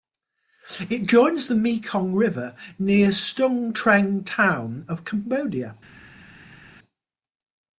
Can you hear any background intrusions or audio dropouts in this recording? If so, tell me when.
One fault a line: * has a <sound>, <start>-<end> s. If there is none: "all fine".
all fine